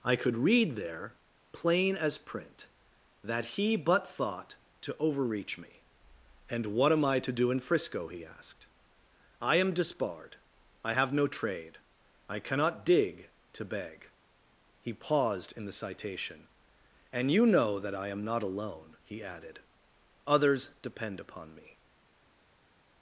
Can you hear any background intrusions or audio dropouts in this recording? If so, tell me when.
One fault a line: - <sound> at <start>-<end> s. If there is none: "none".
none